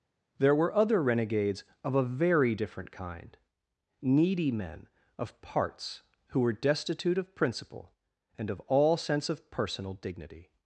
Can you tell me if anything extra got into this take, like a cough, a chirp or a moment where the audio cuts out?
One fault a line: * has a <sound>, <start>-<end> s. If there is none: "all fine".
all fine